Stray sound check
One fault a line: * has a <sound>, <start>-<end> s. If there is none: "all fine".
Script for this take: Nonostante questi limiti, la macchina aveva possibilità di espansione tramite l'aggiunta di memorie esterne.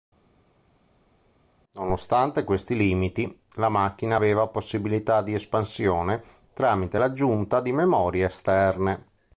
all fine